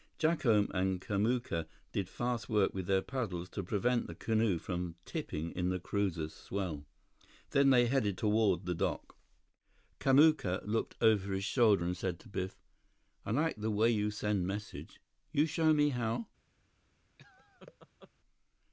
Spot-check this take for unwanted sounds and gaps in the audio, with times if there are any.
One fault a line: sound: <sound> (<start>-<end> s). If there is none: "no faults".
sound: laugh (17.2-18.1 s)